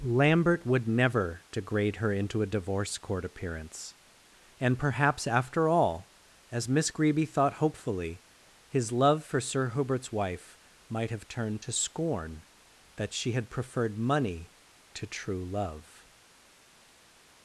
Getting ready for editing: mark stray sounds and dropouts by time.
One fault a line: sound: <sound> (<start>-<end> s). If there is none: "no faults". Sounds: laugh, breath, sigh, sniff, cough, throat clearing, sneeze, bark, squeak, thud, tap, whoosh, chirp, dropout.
no faults